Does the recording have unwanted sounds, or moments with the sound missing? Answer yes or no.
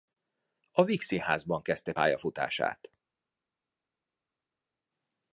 no